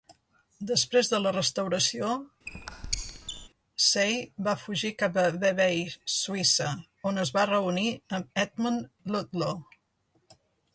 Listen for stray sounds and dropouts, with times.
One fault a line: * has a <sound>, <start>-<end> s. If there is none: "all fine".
* has a squeak, 2.5-3.5 s